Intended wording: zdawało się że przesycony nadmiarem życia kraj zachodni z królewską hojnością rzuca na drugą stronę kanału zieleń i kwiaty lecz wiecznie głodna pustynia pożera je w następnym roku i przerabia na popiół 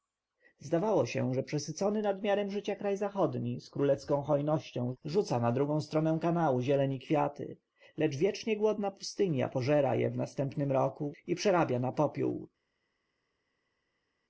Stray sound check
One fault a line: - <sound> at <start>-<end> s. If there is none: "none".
none